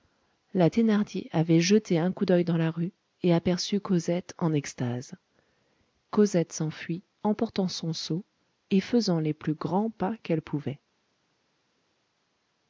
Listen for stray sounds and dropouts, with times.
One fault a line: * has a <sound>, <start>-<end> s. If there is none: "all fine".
all fine